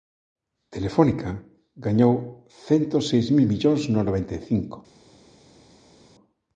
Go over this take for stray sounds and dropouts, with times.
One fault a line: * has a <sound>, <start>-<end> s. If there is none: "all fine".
all fine